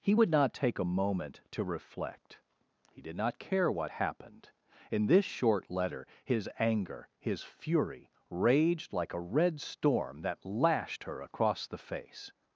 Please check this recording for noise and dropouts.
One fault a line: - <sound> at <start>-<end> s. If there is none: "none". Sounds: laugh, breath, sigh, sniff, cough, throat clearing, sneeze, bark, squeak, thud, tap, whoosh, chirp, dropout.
none